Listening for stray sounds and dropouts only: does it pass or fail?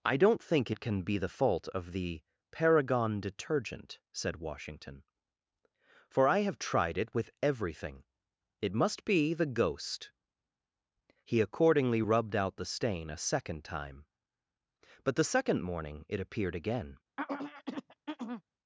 fail